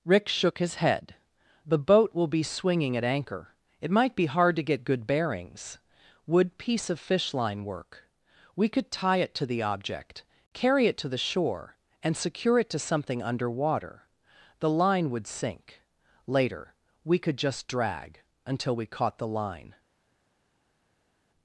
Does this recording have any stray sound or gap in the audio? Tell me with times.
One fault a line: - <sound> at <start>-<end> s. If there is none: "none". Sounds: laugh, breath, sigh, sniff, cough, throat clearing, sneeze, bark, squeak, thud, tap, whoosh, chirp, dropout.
none